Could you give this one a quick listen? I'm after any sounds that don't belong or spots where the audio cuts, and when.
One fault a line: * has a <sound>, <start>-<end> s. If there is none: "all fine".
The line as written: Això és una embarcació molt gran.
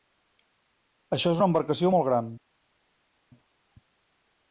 all fine